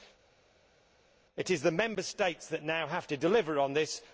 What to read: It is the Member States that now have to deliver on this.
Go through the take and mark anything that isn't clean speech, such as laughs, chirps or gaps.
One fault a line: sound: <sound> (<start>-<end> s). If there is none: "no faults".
no faults